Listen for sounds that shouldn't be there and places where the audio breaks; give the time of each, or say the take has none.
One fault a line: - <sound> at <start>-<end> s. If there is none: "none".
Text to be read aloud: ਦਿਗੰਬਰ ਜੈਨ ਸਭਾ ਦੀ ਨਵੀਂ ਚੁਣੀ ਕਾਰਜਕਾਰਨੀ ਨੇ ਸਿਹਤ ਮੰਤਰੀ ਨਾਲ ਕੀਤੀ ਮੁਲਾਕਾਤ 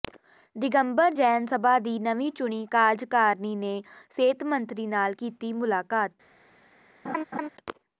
- laugh at 7.0-7.5 s